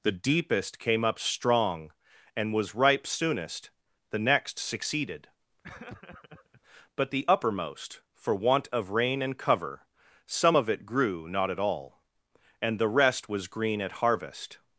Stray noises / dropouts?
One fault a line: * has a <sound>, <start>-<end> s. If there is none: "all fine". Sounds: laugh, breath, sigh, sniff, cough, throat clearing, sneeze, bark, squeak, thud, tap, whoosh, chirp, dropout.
* has a laugh, 5.6-6.6 s